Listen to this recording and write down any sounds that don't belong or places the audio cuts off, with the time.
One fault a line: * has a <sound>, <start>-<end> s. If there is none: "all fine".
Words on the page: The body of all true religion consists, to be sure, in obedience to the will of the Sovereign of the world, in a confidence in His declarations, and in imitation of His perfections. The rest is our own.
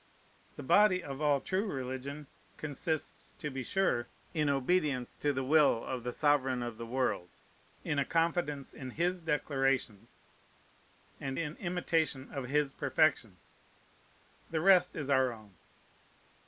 all fine